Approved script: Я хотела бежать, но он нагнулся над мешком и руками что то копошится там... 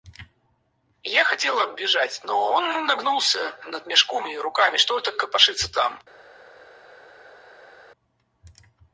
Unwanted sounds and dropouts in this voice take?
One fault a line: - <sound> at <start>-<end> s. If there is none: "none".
none